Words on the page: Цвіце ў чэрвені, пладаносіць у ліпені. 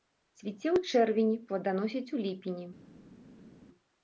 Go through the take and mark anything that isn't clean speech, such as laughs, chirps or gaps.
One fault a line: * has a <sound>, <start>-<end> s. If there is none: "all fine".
all fine